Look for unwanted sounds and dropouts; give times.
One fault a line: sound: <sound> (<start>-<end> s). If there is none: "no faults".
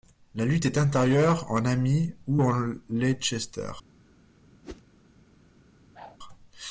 sound: whoosh (4.6-4.8 s)
sound: whoosh (5.9-6.2 s)